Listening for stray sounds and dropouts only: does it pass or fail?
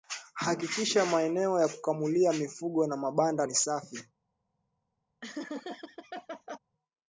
fail